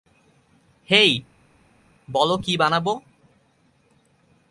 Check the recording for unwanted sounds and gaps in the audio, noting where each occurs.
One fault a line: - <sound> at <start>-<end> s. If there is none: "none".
none